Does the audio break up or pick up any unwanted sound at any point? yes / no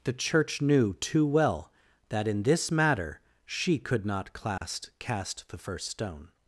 yes